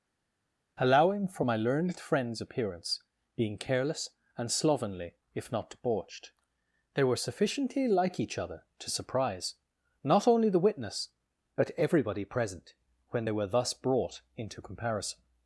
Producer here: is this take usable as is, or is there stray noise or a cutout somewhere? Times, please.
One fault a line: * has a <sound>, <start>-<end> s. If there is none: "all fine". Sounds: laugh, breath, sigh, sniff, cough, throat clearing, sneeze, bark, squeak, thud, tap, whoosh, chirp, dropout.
all fine